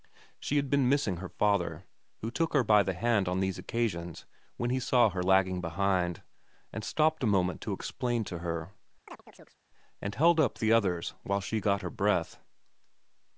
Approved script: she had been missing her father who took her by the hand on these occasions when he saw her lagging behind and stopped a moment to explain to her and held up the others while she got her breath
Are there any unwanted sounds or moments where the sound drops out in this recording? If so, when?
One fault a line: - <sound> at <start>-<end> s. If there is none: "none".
- chirp at 9.1-9.6 s